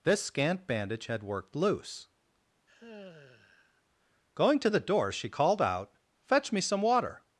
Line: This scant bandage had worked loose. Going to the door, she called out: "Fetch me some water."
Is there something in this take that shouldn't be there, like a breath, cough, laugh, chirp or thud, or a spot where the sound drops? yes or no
yes